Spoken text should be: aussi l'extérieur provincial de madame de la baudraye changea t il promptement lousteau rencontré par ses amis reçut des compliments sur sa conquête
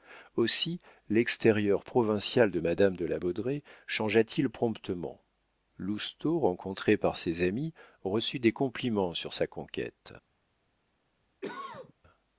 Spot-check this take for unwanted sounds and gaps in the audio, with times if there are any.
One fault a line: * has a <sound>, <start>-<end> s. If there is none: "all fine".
* has a cough, 11.4-11.9 s